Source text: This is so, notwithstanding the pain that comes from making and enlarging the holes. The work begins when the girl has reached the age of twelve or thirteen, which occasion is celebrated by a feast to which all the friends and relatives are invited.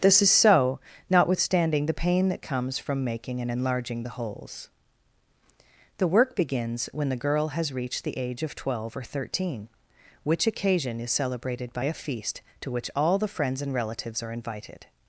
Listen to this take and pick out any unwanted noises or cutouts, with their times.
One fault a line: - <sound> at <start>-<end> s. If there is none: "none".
none